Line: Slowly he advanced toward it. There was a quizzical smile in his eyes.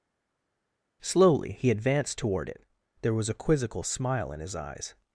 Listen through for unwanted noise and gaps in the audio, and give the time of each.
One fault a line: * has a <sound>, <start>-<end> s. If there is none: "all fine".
all fine